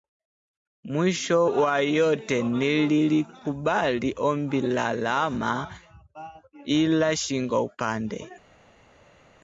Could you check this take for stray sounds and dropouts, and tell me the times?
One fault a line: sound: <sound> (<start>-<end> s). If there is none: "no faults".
no faults